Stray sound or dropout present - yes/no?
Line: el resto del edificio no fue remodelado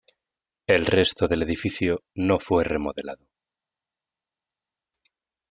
no